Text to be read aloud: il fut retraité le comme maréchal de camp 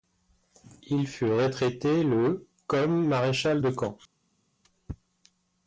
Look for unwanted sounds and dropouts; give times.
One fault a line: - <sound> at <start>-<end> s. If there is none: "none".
none